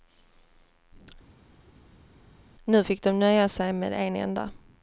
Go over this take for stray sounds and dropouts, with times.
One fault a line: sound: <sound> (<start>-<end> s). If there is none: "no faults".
no faults